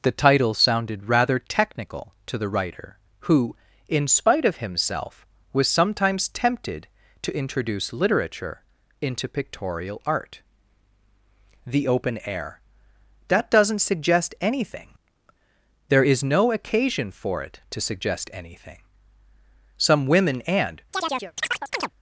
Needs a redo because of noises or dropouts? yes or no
yes